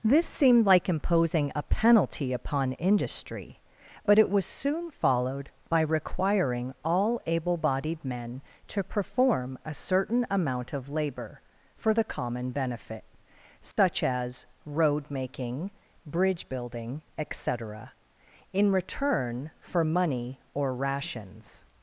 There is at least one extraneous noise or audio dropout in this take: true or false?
true